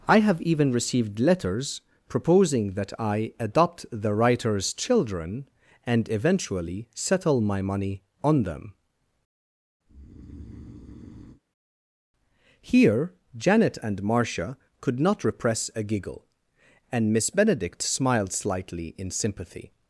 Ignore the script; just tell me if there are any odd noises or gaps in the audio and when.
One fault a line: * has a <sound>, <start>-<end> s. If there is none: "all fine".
* has a breath, 9.9-11.4 s